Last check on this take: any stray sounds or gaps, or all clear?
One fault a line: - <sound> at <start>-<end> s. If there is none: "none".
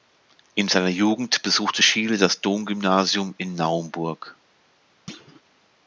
- thud at 5.1-5.4 s